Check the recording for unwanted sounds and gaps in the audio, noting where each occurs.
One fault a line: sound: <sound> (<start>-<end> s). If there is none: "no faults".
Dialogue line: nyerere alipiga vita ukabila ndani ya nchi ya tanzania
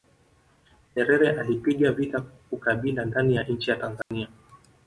sound: dropout (4.0-4.1 s)